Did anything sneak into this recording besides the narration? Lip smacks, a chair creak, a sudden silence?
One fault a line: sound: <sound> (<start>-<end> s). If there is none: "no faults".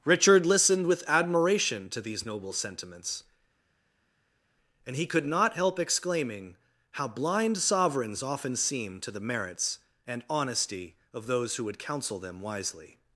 no faults